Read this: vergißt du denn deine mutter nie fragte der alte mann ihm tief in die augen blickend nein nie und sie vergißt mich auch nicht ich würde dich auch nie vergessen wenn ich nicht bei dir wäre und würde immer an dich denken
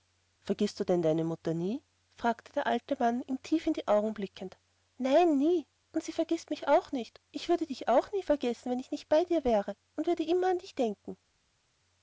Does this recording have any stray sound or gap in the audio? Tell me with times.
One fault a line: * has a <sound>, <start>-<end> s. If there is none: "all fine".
all fine